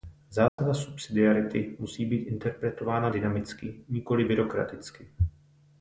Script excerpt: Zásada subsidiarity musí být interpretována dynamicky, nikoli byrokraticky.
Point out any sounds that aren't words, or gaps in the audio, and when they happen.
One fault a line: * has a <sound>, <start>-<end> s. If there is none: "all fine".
* has a dropout, 0.5-0.6 s